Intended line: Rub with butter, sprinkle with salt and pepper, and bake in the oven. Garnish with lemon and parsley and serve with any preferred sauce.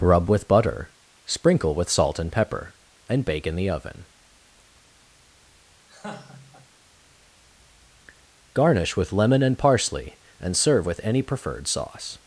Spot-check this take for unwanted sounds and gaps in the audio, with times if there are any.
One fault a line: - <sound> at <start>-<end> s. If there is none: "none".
- laugh at 5.9-6.7 s